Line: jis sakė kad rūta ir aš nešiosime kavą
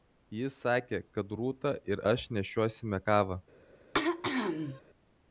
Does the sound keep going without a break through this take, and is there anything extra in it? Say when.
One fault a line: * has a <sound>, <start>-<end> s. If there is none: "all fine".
* has a throat clearing, 3.9-4.8 s